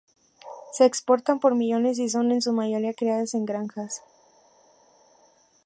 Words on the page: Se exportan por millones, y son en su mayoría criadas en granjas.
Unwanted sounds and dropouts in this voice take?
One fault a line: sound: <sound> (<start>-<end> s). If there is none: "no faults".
no faults